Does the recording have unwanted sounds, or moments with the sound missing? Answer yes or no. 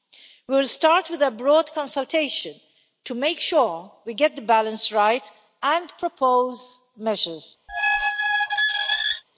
yes